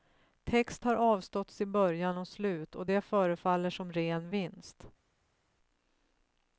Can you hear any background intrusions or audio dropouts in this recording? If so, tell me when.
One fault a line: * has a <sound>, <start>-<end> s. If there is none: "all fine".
all fine